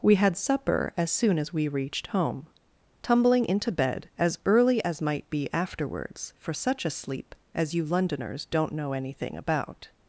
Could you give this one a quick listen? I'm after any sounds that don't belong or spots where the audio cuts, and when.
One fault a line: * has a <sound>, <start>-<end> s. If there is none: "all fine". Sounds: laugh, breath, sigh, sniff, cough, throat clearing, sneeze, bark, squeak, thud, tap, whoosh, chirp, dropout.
all fine